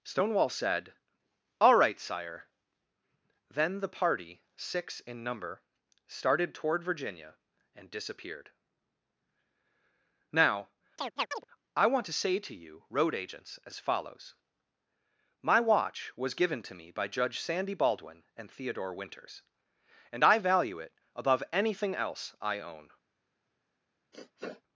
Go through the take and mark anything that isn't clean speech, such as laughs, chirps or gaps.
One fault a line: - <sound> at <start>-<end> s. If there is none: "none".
- chirp at 11.0-11.4 s
- sniff at 24.1-24.6 s